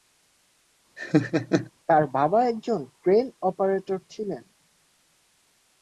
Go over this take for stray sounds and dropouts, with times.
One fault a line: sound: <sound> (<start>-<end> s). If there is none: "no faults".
sound: laugh (1.0-1.7 s)